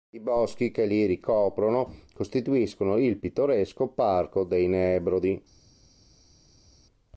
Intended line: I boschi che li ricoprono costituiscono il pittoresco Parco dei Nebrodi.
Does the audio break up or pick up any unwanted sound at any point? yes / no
no